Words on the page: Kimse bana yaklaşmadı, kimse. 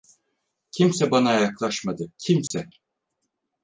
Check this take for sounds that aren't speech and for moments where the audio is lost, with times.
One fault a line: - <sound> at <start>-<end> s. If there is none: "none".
- dropout at 2.5-2.5 s